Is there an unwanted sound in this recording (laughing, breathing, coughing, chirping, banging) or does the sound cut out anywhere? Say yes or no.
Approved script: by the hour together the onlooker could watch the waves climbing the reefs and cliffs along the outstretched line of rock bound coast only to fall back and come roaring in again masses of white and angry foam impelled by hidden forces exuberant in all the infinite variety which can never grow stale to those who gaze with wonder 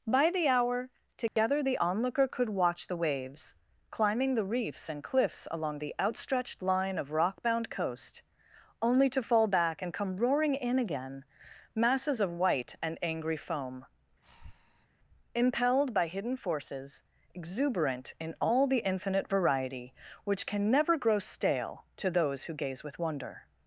yes